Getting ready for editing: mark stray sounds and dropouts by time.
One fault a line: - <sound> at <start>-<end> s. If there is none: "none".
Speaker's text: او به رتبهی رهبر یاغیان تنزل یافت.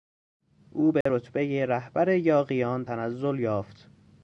- dropout at 1.0-1.1 s